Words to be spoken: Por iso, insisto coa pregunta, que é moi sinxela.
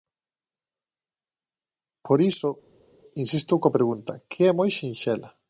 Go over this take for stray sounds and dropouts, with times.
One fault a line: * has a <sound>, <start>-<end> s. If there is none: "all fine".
all fine